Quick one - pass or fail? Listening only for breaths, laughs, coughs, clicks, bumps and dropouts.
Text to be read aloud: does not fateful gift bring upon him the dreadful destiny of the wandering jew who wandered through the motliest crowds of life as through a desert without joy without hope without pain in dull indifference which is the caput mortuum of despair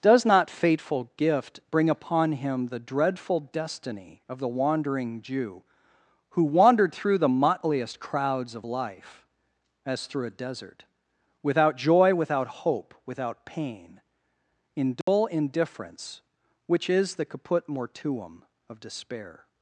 fail